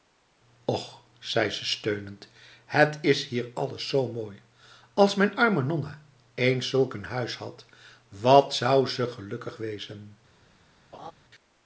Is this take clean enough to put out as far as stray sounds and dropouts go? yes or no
no